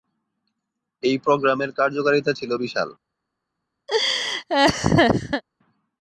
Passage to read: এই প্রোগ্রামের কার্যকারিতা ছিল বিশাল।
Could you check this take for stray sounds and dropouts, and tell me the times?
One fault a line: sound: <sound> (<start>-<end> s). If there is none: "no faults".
sound: laugh (3.9-5.4 s)